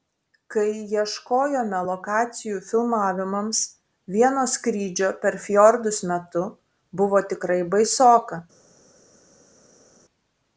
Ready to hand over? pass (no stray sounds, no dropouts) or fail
pass